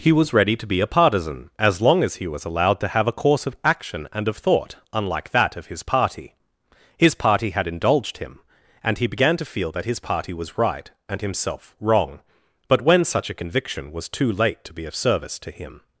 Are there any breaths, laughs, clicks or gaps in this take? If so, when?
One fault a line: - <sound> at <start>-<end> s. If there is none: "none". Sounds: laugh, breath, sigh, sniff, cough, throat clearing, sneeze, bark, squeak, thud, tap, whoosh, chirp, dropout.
none